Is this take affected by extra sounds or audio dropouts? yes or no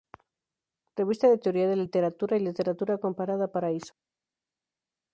no